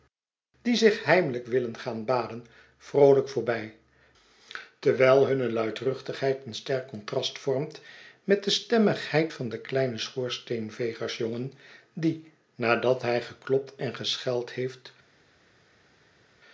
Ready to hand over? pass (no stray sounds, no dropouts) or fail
pass